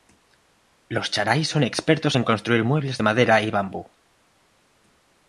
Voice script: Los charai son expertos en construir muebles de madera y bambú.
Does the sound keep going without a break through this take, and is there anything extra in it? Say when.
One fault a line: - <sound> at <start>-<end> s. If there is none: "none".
none